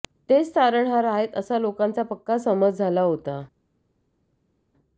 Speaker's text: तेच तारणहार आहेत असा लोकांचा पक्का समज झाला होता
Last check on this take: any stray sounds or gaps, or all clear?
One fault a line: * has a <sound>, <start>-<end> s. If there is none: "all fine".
all fine